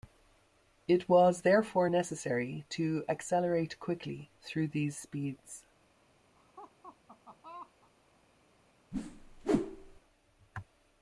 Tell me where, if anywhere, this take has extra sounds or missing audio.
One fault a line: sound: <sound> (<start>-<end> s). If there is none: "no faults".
sound: laugh (6.4-7.9 s)
sound: whoosh (8.9-10.0 s)